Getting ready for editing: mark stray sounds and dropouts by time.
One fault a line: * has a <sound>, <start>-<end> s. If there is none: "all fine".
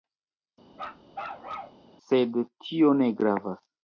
* has a bark, 0.7-1.8 s